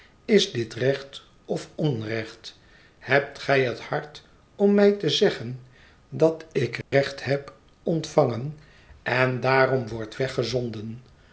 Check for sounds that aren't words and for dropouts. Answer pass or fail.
fail